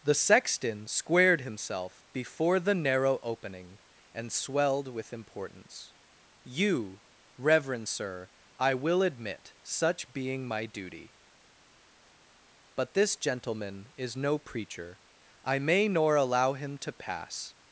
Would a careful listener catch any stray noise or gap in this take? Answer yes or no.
no